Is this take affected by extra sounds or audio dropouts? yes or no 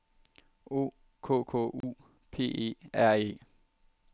yes